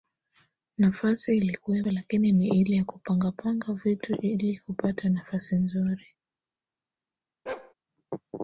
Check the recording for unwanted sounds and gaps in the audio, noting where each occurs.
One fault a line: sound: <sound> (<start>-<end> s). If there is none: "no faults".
sound: bark (7.5-7.7 s)